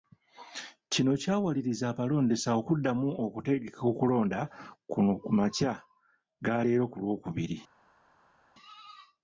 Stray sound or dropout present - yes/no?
no